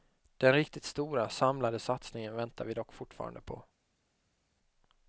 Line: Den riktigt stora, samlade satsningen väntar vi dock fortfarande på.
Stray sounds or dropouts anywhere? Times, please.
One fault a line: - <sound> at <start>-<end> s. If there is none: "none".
none